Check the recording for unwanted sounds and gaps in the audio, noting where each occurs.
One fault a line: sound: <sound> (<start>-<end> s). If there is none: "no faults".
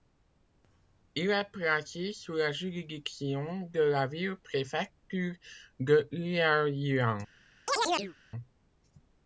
sound: chirp (7.7-8.1 s)